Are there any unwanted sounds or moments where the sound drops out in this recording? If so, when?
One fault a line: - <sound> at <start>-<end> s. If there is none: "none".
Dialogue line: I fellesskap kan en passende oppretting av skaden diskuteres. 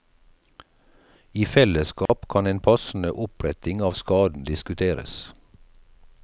- dropout at 2.1-2.1 s